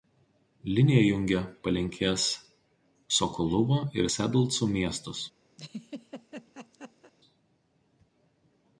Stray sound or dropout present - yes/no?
yes